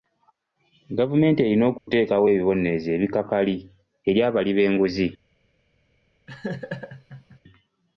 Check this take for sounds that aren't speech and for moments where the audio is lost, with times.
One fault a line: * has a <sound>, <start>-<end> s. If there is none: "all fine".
* has a dropout, 1.8-1.9 s
* has a laugh, 6.3-7.4 s